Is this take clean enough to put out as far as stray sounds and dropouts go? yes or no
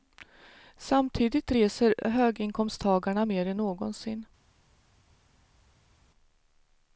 yes